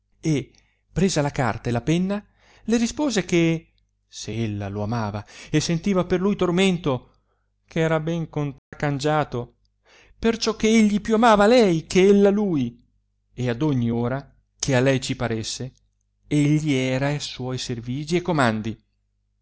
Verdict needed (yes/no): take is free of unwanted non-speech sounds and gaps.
no